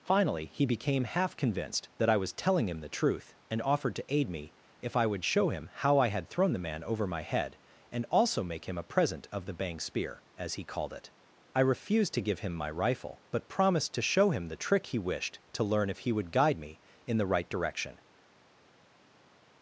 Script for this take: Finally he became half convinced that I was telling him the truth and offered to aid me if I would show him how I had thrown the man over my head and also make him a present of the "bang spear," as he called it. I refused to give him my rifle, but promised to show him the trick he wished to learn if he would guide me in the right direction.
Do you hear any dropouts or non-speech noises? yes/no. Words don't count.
no